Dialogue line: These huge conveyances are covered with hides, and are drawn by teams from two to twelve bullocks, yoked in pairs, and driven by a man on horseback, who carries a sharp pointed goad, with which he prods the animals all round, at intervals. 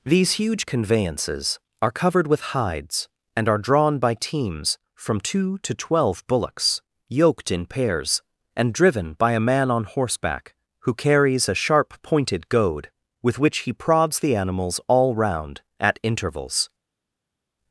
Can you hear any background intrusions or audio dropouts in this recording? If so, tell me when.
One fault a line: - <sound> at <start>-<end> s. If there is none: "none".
none